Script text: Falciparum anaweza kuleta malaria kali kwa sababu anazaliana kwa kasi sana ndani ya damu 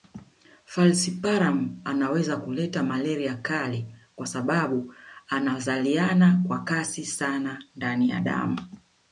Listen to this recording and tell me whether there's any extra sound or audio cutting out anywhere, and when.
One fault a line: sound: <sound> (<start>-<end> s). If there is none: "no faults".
no faults